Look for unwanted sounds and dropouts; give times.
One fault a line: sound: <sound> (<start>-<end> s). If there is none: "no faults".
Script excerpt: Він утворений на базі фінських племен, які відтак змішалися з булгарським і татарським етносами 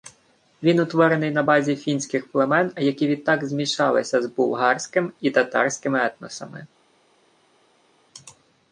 no faults